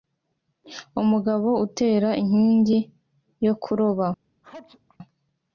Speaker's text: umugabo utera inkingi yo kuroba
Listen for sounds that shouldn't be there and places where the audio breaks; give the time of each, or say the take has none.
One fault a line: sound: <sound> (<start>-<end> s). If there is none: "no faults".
sound: sneeze (4.4-5.0 s)